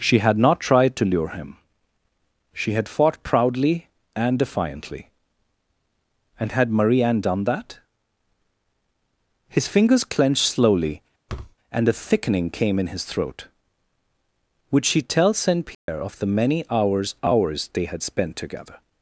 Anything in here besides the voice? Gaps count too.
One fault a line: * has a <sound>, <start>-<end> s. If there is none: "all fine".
* has a thud, 11.3-11.6 s
* has a dropout, 15.7-15.9 s